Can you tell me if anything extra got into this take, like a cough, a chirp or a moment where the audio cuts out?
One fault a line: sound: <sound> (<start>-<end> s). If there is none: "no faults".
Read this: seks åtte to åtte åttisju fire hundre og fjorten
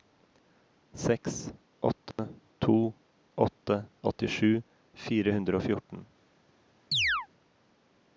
sound: dropout (2.1-2.2 s)
sound: chirp (6.9-7.3 s)